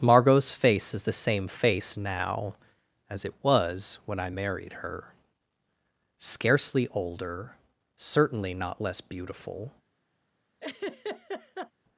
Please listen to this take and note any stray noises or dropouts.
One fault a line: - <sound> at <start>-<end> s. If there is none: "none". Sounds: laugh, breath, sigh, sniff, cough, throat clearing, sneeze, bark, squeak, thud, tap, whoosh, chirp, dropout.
- laugh at 10.6-11.7 s